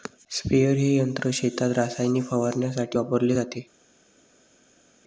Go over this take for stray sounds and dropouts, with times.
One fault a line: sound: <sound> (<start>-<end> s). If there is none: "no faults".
no faults